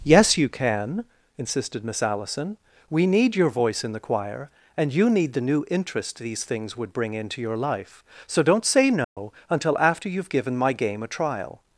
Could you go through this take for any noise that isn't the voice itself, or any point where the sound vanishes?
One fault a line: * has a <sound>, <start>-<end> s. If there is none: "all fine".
* has a dropout, 9.0-9.2 s